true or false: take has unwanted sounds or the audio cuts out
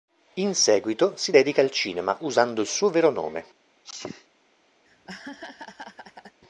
true